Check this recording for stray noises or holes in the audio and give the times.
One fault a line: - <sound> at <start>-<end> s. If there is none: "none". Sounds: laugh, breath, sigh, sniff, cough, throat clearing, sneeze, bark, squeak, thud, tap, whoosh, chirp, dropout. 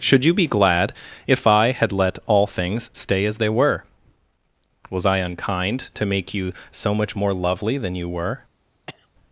- cough at 8.9-9.1 s